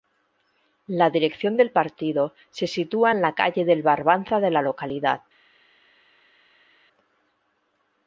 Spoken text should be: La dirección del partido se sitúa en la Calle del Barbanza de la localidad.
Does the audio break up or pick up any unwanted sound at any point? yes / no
no